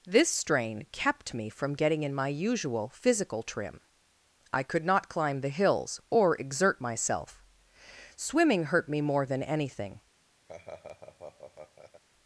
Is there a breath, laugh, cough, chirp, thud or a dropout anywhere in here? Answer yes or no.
yes